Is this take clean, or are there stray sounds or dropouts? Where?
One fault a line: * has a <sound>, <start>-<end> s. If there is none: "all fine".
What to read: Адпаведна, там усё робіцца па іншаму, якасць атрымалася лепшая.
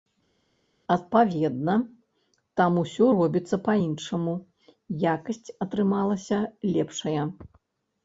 all fine